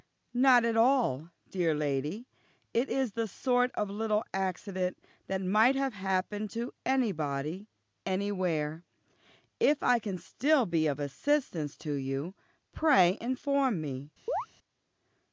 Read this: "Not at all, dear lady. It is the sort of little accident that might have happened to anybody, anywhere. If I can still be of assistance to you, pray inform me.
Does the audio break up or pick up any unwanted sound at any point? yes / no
yes